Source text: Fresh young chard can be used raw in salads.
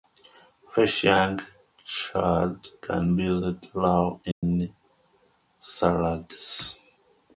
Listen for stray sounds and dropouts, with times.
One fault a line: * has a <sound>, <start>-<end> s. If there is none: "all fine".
* has a dropout, 4.3-4.4 s